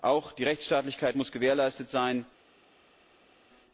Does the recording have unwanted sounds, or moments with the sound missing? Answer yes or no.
no